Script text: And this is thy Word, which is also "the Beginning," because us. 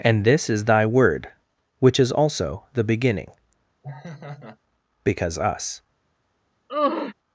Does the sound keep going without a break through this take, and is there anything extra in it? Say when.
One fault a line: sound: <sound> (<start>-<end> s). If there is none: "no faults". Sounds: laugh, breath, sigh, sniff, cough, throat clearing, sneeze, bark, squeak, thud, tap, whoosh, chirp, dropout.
sound: laugh (3.8-4.6 s)
sound: sigh (6.7-7.1 s)